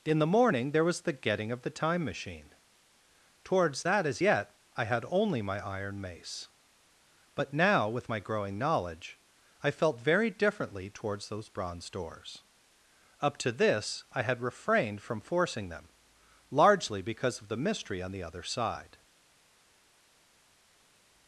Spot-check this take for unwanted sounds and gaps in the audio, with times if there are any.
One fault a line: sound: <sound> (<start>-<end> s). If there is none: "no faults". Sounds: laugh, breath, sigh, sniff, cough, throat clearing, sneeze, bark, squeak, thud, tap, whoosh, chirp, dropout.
no faults